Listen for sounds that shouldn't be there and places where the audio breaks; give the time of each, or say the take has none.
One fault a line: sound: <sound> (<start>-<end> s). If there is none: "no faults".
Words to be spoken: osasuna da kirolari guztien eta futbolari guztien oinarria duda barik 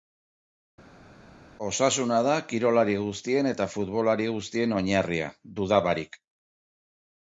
no faults